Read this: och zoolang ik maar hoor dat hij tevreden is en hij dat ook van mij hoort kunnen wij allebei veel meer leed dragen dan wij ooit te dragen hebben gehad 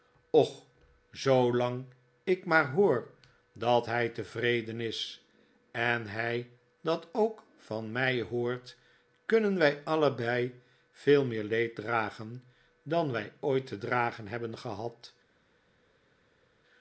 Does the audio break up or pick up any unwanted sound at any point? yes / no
no